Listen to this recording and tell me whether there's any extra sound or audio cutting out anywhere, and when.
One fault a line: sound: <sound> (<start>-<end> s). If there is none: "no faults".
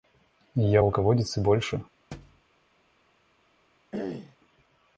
sound: thud (2.1-2.4 s)
sound: throat clearing (3.9-4.4 s)